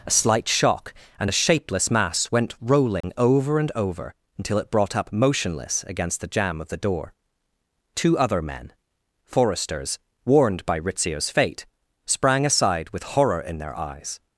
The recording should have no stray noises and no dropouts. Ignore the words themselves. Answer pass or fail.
fail